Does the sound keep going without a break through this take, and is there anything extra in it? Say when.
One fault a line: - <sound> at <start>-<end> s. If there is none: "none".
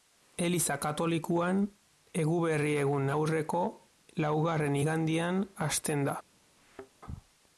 - thud at 6.6-6.9 s